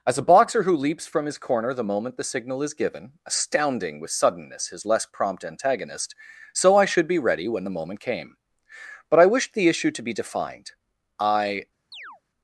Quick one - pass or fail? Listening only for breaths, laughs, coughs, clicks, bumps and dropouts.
fail